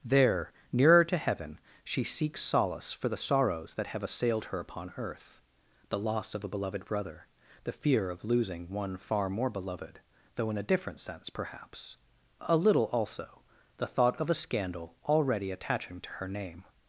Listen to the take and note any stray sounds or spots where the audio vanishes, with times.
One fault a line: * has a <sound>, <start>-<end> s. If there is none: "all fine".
all fine